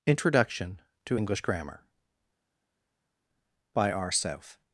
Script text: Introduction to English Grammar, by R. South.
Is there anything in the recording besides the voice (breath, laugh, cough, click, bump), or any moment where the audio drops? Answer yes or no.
no